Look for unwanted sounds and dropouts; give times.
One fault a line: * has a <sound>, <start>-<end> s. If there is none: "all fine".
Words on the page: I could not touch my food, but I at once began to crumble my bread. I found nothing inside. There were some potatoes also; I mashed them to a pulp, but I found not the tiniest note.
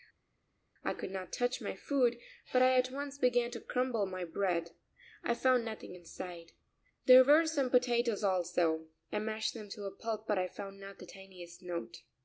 all fine